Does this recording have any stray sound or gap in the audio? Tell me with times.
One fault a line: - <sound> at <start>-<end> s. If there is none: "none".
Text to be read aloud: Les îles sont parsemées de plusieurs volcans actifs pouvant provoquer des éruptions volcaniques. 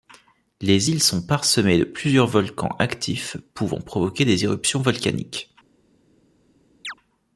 - chirp at 6.8-6.9 s